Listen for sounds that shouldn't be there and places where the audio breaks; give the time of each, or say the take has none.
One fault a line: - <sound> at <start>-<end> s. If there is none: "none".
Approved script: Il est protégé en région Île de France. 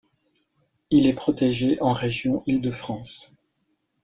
none